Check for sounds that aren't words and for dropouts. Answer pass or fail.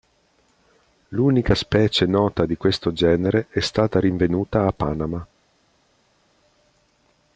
pass